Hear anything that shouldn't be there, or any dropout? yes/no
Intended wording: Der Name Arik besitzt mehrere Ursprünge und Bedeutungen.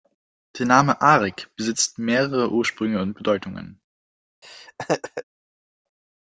yes